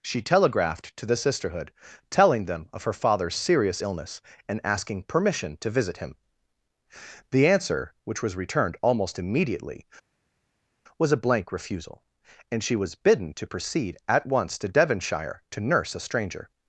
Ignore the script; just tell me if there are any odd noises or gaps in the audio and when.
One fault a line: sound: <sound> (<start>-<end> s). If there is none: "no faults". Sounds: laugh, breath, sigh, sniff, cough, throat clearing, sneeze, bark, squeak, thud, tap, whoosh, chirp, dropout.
no faults